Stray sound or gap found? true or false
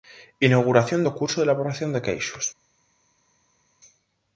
false